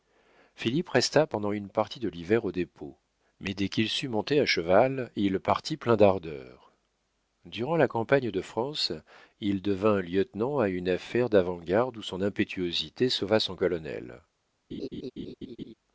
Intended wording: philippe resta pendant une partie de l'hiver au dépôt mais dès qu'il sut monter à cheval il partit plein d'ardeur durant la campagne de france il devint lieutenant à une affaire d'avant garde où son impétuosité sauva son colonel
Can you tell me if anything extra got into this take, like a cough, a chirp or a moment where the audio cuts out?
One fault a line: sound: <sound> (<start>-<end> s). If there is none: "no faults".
sound: laugh (14.7-15.7 s)